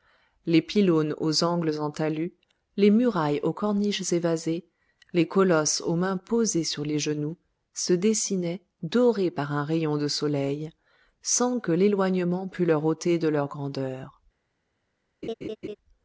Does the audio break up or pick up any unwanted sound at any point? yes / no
yes